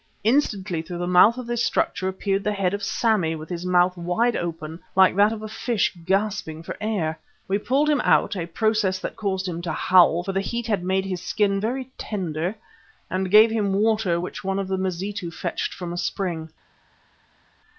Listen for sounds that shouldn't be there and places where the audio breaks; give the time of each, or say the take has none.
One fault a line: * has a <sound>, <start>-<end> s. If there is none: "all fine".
all fine